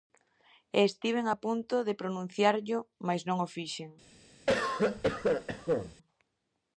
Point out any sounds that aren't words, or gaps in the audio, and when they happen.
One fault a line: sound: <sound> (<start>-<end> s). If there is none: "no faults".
sound: cough (4.5-6.0 s)